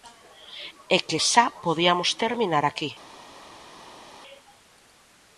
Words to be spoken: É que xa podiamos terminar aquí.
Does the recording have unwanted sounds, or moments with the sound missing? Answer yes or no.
no